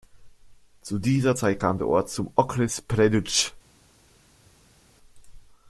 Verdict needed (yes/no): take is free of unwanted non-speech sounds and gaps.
yes